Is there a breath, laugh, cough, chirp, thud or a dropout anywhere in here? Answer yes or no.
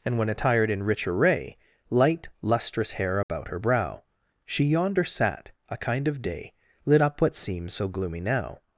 yes